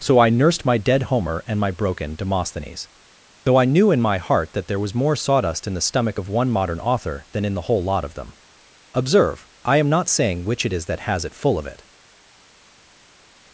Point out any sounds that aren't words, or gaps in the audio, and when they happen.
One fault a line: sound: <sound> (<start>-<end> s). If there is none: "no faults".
no faults